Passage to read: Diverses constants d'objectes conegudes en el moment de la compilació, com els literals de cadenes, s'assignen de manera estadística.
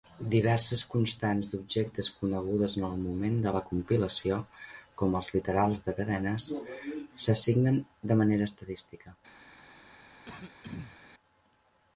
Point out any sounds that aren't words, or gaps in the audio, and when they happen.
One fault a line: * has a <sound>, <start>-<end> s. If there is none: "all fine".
* has a throat clearing, 10.2-11.0 s